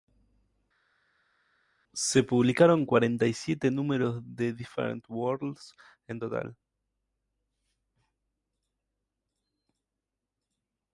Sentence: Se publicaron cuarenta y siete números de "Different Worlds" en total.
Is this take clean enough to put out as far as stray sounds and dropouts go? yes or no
yes